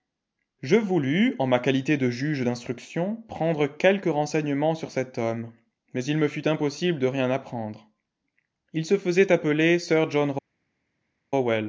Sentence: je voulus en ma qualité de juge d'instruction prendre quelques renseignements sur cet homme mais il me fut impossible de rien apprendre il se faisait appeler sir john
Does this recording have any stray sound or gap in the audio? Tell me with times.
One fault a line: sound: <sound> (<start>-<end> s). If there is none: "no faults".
no faults